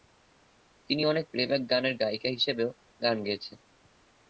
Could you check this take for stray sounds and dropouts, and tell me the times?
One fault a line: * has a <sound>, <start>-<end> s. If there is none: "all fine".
all fine